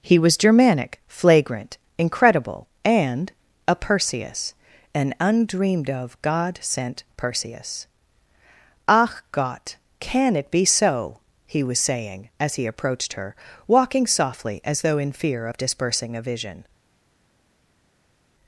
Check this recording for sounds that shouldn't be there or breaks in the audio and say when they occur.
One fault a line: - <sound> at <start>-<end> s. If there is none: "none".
none